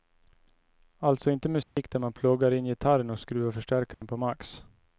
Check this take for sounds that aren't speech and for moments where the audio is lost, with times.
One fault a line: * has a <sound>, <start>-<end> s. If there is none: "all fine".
* has a dropout, 1.6-1.8 s
* has a dropout, 3.9-4.0 s